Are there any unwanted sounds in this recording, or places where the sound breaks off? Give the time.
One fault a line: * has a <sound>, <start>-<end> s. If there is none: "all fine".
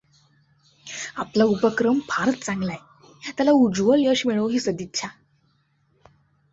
all fine